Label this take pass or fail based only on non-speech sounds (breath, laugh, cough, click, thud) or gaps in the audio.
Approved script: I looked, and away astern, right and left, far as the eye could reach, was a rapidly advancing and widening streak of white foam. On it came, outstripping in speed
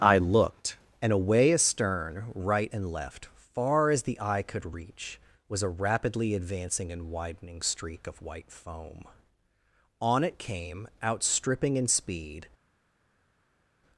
pass